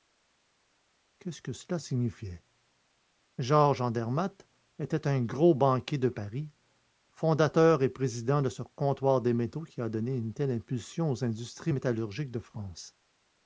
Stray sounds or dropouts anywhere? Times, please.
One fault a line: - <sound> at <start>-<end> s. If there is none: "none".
none